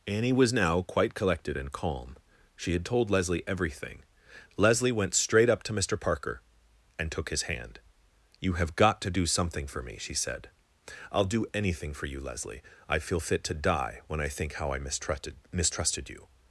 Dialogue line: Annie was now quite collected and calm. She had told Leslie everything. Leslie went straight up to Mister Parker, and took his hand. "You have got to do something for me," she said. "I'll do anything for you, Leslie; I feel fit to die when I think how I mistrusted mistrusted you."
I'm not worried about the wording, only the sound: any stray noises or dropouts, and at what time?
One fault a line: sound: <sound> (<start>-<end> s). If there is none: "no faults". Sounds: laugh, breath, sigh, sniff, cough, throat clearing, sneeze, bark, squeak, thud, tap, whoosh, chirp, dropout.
no faults